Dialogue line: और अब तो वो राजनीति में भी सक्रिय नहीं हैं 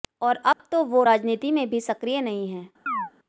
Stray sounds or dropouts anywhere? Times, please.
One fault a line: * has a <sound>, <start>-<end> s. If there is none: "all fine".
* has a dropout, 0.5-0.6 s
* has a chirp, 2.9-3.1 s